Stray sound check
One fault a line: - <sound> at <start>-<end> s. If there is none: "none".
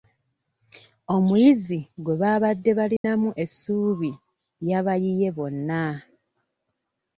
- dropout at 3.0-3.0 s